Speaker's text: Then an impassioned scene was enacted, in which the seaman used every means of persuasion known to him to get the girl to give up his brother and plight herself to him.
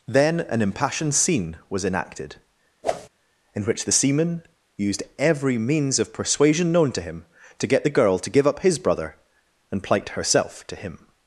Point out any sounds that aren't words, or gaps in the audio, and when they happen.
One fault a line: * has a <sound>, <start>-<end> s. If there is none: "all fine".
* has a whoosh, 2.8-3.1 s